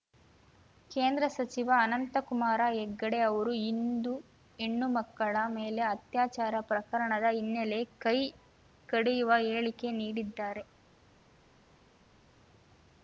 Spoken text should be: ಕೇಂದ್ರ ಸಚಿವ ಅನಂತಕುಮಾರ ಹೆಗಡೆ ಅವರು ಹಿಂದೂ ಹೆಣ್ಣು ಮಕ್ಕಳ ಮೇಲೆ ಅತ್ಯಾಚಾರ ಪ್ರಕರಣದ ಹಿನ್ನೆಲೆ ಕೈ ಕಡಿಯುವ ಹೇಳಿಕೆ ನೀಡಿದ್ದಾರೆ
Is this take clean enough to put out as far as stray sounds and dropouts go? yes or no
yes